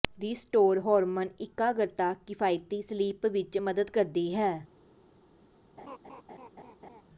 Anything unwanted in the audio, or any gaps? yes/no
yes